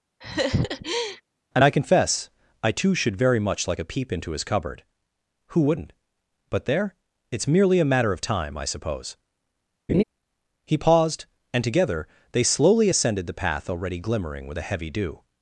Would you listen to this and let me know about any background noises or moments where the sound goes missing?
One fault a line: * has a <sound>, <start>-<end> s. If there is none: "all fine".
* has a laugh, 0.2-1.2 s
* has a laugh, 9.9-10.0 s